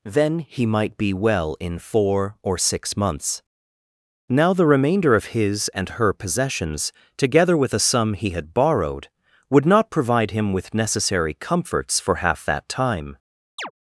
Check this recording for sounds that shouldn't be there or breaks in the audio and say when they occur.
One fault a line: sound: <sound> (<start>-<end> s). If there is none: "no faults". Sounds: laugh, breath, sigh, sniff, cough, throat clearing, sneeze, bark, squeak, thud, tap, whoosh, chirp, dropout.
sound: chirp (13.6-13.7 s)